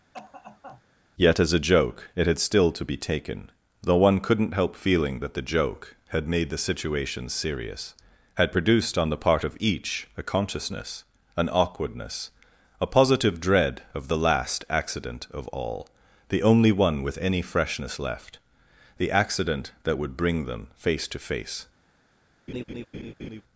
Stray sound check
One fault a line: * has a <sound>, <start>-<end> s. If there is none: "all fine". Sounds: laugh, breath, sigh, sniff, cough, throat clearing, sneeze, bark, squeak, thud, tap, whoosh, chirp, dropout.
* has a cough, 0.1-0.8 s
* has a laugh, 22.5-23.4 s